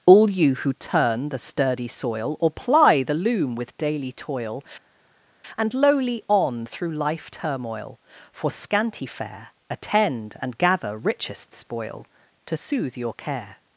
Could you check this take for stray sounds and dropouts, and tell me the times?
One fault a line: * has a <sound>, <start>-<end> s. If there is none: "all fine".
all fine